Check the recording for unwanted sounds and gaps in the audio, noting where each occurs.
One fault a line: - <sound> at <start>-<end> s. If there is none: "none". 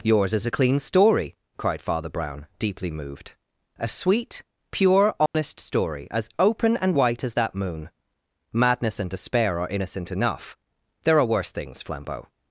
- dropout at 5.3-5.3 s